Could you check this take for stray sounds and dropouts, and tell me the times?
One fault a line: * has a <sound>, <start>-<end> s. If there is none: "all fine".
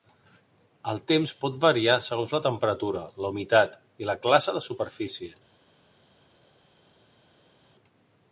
all fine